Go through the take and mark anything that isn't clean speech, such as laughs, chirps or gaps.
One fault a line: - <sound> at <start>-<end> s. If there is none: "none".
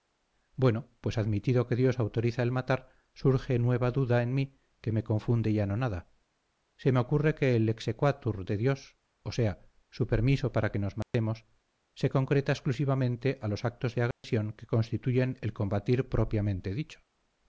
- dropout at 11.0-11.1 s
- dropout at 14.1-14.2 s